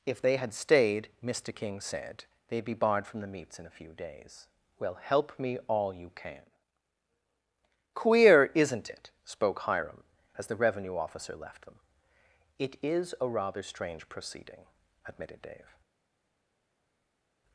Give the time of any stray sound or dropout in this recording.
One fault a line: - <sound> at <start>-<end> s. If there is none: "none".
none